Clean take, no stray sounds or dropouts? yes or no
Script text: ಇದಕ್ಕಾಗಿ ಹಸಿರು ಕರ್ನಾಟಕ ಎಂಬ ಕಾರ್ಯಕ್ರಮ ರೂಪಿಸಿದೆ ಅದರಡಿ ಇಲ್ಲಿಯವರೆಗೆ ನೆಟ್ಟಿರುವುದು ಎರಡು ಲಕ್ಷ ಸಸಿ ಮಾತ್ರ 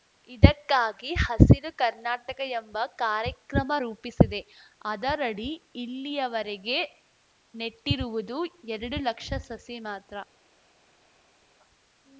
yes